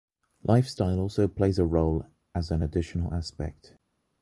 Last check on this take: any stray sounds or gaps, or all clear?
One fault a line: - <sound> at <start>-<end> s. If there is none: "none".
none